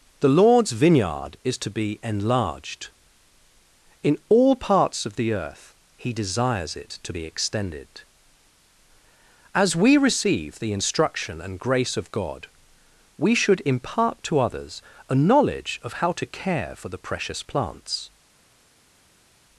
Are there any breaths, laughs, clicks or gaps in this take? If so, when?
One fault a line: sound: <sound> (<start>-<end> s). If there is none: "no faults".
no faults